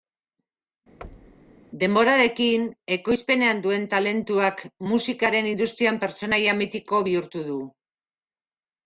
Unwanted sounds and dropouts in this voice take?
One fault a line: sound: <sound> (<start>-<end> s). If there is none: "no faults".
sound: thud (1.0-1.6 s)